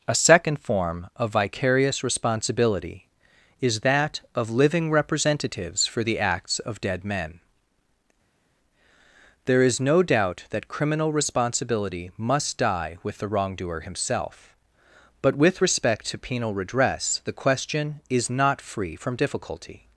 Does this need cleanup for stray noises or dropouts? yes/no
no